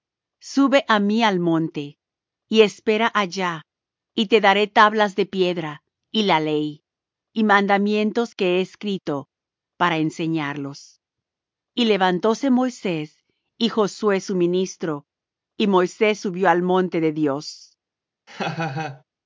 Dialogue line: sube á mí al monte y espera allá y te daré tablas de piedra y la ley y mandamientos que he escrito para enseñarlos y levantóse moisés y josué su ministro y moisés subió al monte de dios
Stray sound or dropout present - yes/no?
yes